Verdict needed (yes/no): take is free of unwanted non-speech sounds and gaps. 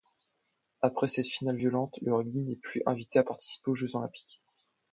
yes